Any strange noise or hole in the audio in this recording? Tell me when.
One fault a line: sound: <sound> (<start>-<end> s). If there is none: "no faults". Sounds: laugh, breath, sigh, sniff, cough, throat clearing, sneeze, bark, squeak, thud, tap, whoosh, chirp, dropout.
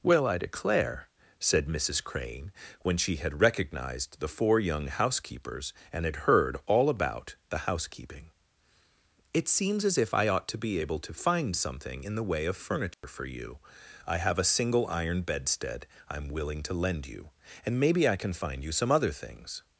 sound: dropout (12.9-13.0 s)